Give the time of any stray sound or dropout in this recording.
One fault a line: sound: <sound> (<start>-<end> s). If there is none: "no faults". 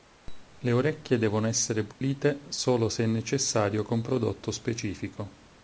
sound: dropout (1.9-2.0 s)